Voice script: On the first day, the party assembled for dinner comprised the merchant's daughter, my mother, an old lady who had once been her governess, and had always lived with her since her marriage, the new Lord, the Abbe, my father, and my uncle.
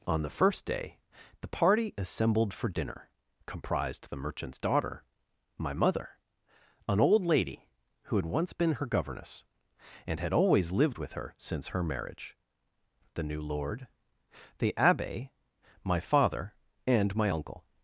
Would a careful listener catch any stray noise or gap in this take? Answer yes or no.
no